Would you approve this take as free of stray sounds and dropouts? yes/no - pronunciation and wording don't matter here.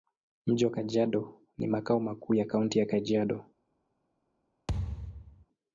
no